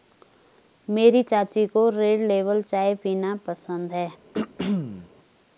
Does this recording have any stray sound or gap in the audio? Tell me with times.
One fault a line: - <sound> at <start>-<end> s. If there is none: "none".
- throat clearing at 4.3-5.1 s